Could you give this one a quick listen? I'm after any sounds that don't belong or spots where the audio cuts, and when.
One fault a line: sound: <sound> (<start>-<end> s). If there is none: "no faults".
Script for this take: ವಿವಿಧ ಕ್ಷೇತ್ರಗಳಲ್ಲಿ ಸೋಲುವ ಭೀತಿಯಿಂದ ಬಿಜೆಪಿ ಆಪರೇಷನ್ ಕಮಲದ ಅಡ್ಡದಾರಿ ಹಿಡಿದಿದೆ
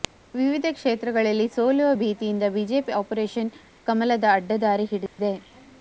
sound: dropout (5.1-5.2 s)